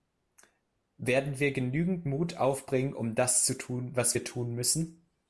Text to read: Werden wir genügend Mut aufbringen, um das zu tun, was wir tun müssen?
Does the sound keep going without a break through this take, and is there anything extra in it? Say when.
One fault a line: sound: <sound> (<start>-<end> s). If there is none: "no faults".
no faults